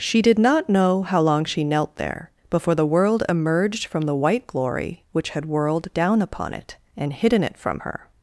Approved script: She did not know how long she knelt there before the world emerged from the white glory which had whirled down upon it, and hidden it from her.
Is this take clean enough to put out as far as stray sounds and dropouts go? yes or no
yes